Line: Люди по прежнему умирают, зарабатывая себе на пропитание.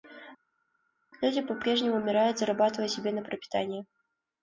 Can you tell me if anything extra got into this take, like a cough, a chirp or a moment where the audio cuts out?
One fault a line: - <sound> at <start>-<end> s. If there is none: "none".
none